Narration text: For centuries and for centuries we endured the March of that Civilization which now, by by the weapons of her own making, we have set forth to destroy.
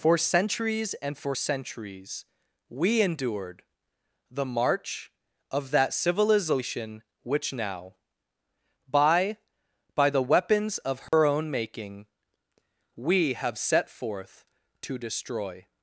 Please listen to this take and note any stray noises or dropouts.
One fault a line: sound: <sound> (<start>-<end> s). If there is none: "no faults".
sound: dropout (11.1-11.1 s)